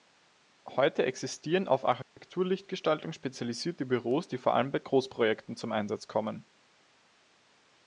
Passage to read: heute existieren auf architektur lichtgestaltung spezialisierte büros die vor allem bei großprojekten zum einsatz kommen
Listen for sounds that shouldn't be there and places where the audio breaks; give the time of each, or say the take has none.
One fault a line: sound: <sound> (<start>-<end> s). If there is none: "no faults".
sound: dropout (2.0-2.2 s)